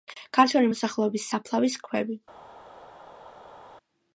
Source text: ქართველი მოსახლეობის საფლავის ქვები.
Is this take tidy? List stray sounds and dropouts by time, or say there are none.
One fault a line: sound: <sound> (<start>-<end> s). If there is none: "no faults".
no faults